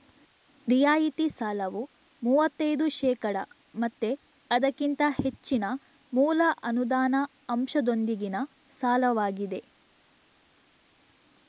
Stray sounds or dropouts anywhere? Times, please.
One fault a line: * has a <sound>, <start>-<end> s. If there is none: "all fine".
all fine